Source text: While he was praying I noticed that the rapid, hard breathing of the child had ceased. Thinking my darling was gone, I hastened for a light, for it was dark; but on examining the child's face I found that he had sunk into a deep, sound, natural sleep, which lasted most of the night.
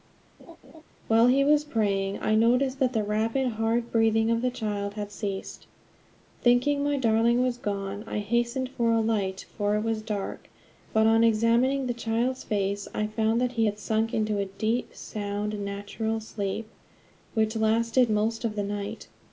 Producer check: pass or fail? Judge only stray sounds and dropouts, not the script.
fail